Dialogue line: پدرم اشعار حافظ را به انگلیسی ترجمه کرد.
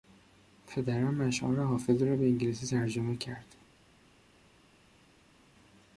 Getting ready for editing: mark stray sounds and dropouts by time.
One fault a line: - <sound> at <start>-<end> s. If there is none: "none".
none